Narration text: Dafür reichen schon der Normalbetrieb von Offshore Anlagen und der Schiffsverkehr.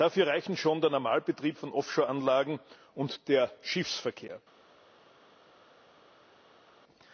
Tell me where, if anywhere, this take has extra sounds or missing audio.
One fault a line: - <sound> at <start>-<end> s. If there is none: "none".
none